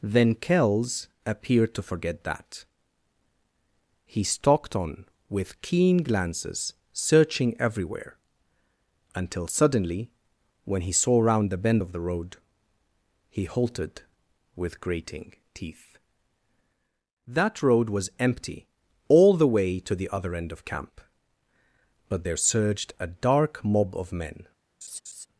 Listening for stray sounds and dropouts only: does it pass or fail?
fail